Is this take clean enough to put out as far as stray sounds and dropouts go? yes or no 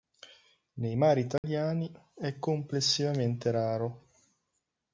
no